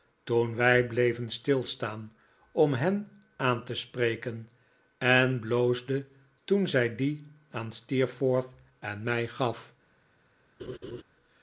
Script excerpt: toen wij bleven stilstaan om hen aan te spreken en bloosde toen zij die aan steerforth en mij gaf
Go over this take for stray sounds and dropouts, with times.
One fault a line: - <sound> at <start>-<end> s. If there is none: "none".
- laugh at 10.6-11.0 s